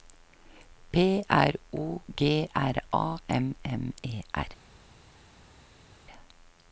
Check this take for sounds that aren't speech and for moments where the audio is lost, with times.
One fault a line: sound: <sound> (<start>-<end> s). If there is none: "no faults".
no faults